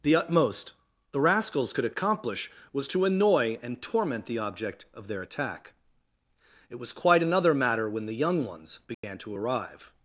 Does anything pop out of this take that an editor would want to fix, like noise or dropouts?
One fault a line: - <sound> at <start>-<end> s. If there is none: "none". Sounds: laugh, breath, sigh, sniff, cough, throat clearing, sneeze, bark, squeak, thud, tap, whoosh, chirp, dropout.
- dropout at 8.9-9.0 s